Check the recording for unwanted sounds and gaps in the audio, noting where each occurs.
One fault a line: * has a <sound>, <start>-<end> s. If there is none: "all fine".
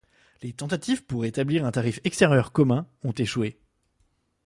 all fine